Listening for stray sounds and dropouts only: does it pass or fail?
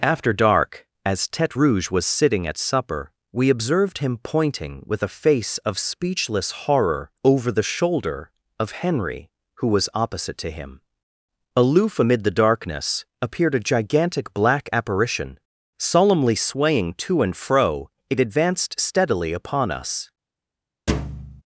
fail